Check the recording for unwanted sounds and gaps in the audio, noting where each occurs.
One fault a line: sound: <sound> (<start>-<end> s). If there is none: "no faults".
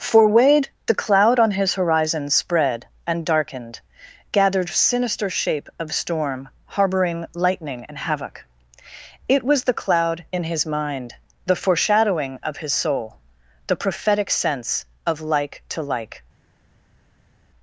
no faults